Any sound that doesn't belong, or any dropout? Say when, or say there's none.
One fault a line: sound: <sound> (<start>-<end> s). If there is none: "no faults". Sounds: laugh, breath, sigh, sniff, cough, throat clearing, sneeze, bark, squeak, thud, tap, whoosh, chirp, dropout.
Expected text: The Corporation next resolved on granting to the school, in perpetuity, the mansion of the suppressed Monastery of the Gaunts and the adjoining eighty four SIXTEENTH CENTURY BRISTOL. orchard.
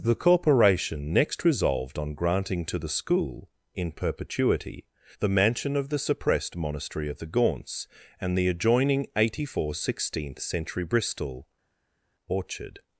no faults